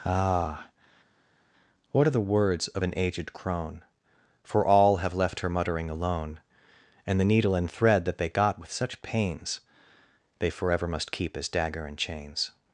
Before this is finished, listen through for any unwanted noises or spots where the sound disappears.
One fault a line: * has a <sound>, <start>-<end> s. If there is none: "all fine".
all fine